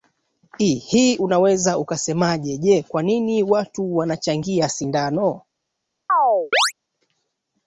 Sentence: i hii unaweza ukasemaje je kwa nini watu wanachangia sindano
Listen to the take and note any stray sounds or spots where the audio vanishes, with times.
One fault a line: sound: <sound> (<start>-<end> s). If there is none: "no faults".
sound: chirp (6.1-6.7 s)